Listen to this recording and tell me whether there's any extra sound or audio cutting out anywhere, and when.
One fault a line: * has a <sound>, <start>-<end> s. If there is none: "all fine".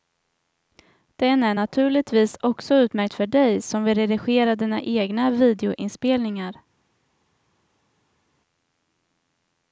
all fine